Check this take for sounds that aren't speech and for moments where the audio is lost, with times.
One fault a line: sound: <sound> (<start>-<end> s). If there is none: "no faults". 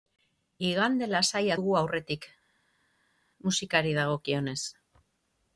no faults